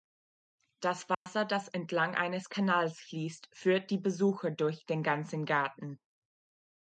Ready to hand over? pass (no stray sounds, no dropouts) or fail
fail